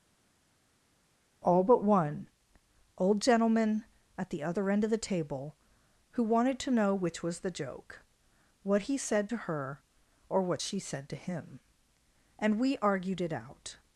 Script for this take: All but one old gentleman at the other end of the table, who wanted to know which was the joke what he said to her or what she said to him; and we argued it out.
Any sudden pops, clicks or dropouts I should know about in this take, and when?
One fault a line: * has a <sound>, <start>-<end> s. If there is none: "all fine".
all fine